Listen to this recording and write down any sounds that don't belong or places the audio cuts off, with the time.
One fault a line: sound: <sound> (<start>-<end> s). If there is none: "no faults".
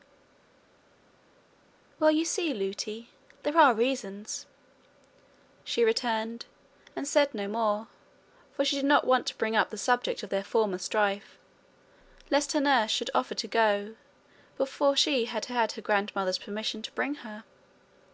no faults